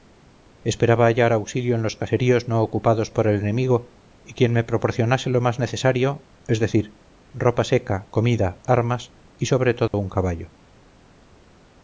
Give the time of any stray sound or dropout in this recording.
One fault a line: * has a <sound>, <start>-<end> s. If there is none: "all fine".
* has a dropout, 9.9-9.9 s